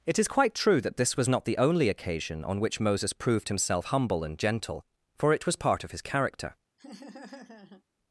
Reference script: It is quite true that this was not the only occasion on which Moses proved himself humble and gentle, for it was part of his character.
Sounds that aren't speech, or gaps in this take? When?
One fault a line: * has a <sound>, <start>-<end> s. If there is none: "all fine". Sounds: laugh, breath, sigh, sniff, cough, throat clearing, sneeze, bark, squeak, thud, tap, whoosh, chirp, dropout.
* has a laugh, 6.8-7.8 s